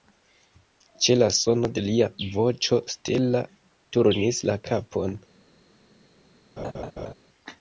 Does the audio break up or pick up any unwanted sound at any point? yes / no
yes